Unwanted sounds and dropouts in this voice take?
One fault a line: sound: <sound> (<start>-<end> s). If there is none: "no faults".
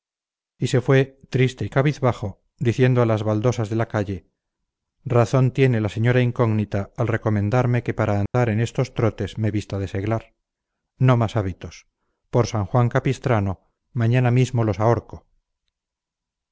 sound: dropout (8.3-8.3 s)